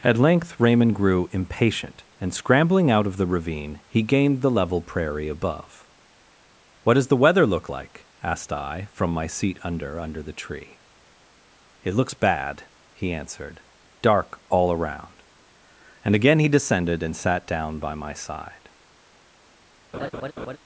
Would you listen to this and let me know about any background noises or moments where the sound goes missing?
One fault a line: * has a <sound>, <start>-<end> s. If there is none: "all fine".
* has a laugh, 19.9-20.6 s